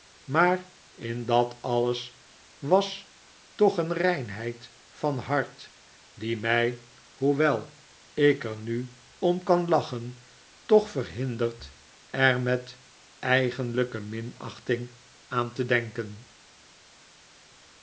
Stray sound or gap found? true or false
false